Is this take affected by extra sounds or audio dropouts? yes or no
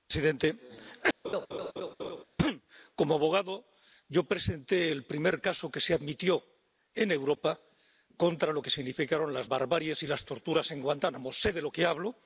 yes